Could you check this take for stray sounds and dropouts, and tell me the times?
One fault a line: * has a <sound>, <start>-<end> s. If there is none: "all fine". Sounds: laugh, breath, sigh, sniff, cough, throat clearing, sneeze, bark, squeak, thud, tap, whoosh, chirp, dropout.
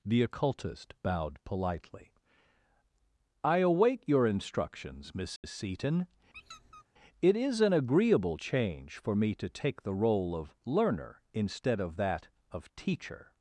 * has a dropout, 5.4-5.4 s
* has a squeak, 6.3-6.8 s